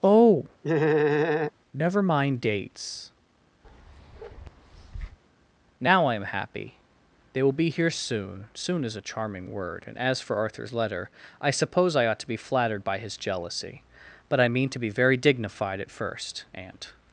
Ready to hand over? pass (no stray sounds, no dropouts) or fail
fail